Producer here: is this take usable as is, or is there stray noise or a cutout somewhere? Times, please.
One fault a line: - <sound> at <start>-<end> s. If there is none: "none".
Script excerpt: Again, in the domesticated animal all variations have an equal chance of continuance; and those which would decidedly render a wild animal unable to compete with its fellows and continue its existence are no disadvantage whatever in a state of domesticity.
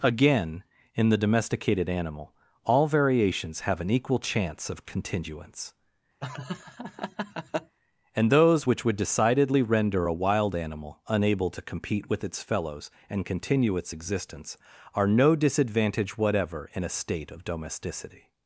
- laugh at 6.2-7.8 s